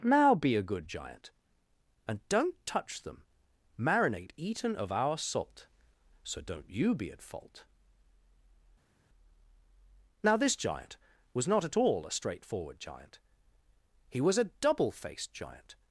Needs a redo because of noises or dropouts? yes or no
no